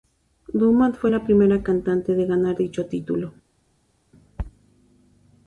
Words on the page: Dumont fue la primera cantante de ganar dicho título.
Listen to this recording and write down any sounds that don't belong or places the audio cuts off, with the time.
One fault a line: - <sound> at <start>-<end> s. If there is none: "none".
none